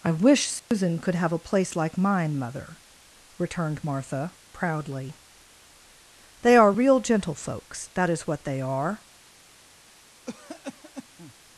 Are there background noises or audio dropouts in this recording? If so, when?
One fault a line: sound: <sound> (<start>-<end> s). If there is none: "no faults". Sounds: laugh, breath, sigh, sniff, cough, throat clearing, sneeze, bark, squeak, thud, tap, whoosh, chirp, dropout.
sound: dropout (0.6-0.7 s)
sound: cough (10.3-11.3 s)